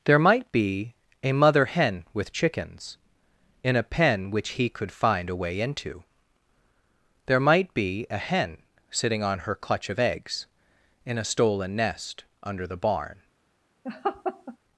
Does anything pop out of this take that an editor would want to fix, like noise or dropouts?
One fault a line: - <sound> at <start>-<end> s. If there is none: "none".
- laugh at 13.8-14.6 s